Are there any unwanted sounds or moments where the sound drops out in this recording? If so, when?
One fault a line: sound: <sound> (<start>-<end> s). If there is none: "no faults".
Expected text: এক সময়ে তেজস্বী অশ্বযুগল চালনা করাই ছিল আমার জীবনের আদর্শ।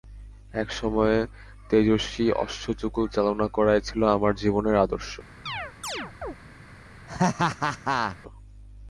sound: chirp (5.5-6.4 s)
sound: laugh (7.1-8.2 s)